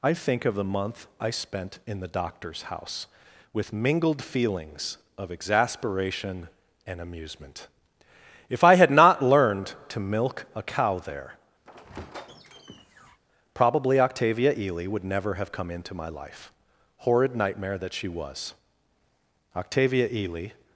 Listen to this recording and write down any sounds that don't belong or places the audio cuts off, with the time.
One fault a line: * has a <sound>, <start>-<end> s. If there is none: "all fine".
* has a squeak, 11.6-13.2 s